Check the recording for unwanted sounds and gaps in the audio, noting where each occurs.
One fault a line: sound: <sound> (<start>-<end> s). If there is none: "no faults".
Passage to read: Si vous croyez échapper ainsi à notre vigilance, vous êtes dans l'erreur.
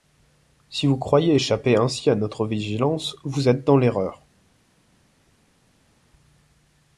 no faults